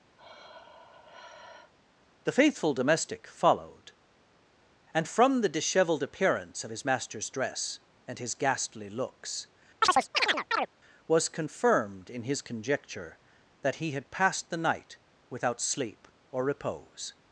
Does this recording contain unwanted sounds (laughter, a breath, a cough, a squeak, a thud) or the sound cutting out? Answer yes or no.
yes